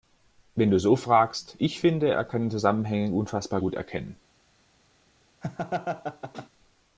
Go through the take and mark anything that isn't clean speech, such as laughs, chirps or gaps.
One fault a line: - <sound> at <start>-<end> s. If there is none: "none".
- laugh at 5.4-6.5 s